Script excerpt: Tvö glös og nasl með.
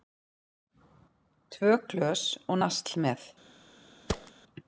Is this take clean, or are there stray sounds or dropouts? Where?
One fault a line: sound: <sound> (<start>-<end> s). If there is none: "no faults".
sound: thud (4.1-4.3 s)